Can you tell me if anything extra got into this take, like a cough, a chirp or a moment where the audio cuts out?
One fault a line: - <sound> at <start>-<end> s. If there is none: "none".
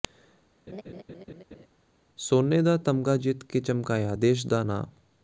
- laugh at 0.7-1.7 s